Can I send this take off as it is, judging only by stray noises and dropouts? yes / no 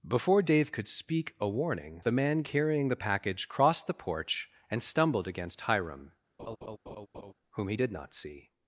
no